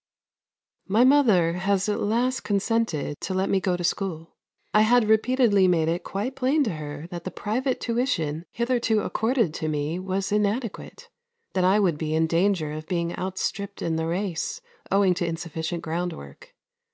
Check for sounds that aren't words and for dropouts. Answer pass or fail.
pass